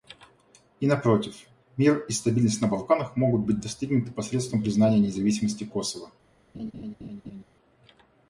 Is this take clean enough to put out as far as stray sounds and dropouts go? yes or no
no